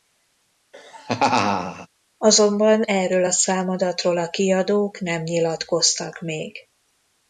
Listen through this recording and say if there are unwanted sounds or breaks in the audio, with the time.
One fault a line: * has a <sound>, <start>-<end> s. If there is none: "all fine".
* has a laugh, 0.7-1.9 s